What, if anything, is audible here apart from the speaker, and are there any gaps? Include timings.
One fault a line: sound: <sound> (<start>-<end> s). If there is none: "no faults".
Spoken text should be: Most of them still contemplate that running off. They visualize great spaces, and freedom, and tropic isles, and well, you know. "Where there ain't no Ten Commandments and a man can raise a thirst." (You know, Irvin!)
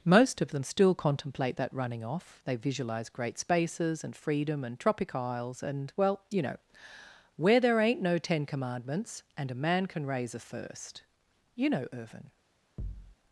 sound: thud (12.8-13.2 s)